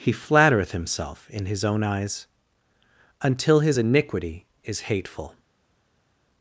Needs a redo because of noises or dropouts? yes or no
no